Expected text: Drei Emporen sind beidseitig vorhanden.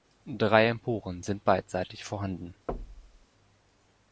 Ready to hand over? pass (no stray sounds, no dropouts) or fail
fail